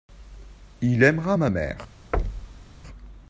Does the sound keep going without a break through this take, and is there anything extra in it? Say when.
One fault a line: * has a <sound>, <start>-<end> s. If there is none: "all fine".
* has a thud, 2.1-2.7 s